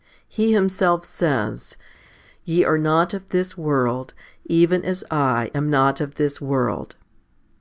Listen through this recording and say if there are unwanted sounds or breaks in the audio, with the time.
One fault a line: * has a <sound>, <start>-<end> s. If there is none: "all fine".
all fine